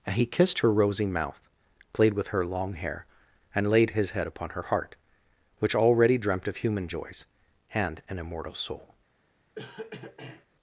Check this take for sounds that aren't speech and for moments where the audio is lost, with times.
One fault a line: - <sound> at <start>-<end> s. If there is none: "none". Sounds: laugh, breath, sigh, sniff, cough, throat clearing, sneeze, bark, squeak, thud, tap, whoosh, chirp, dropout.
- cough at 9.5-10.5 s